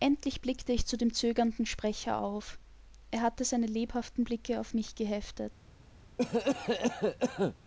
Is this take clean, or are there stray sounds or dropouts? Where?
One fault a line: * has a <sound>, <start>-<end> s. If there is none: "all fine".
* has a cough, 6.2-7.6 s